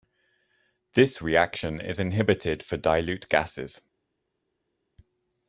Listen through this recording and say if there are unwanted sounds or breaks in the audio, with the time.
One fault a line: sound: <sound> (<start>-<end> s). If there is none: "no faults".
no faults